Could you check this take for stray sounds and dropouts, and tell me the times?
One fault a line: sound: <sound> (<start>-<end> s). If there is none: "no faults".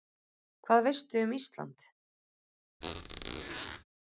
sound: squeak (2.8-3.8 s)